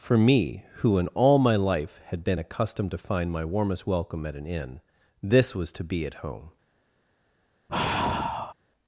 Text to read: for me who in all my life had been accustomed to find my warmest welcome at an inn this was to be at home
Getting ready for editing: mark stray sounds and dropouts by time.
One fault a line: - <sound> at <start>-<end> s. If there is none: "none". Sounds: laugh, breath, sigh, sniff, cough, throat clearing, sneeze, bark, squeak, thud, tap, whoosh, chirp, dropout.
- sigh at 7.7-8.5 s